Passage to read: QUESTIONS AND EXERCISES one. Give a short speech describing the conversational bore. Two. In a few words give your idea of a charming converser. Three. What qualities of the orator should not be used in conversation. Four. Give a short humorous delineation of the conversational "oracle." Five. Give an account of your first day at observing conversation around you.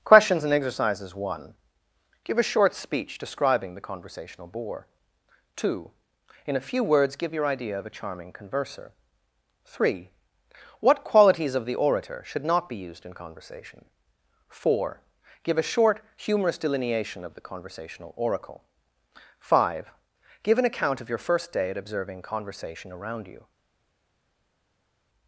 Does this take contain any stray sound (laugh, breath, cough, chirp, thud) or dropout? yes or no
no